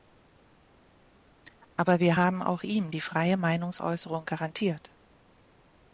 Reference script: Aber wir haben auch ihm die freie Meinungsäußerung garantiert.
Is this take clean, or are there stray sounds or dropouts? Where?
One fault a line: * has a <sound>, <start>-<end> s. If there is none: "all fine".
all fine